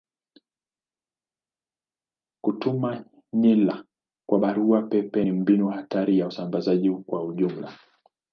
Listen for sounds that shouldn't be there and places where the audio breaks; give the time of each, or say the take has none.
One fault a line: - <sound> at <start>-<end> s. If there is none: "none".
none